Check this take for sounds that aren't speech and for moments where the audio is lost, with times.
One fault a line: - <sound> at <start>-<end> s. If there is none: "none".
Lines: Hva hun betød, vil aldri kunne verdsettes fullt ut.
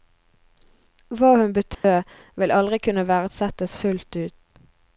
- dropout at 1.7-1.8 s